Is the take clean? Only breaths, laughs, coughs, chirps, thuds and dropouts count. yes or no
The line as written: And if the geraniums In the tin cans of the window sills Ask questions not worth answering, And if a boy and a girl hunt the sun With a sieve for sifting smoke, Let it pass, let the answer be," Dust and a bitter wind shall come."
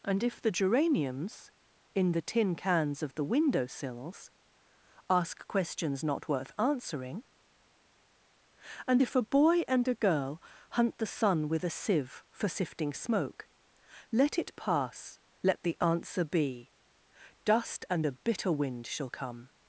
yes